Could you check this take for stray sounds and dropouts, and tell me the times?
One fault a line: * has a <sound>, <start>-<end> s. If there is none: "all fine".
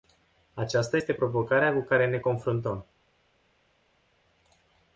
all fine